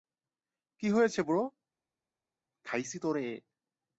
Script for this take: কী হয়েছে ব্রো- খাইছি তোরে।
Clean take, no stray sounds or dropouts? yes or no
yes